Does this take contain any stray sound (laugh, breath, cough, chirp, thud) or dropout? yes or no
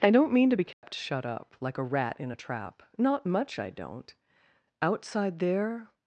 yes